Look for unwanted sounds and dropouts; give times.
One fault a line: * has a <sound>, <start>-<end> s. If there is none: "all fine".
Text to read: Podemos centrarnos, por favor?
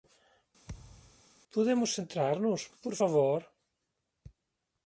* has a thud, 0.7-1.2 s